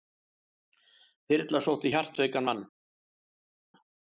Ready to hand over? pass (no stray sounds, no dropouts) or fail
pass